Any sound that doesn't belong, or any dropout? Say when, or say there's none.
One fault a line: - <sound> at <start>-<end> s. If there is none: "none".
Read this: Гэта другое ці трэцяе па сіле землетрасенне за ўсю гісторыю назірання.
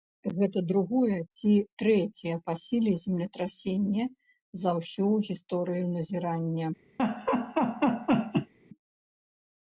- laugh at 7.0-8.5 s